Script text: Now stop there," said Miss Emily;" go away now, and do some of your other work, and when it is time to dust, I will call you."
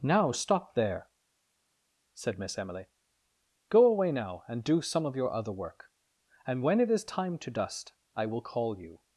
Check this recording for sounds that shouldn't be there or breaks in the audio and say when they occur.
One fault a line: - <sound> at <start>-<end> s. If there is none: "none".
none